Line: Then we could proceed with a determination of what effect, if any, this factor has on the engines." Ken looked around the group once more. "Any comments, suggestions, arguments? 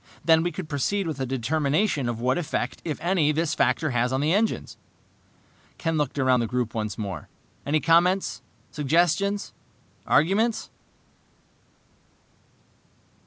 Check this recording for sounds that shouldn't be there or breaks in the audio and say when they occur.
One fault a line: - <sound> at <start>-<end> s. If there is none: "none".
none